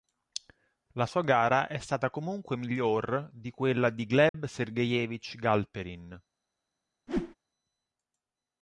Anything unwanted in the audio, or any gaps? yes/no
yes